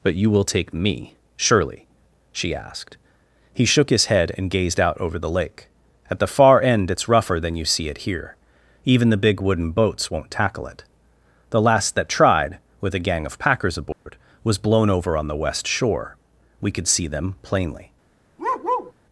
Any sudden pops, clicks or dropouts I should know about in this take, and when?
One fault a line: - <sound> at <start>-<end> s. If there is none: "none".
- dropout at 13.9-14.1 s
- bark at 18.4-18.9 s